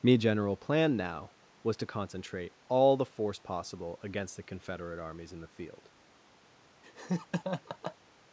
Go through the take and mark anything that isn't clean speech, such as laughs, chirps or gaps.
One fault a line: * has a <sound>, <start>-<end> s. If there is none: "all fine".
* has a laugh, 6.8-8.0 s